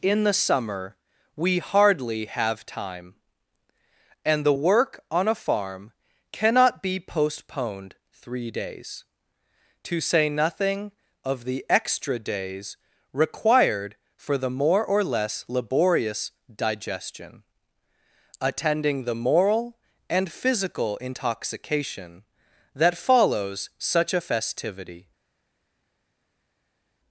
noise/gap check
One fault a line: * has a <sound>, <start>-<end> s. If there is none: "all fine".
all fine